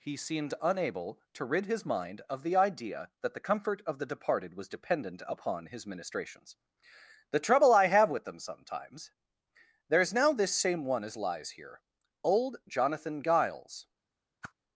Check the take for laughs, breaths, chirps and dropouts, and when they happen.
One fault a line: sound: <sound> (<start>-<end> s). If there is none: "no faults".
sound: whoosh (14.4-14.5 s)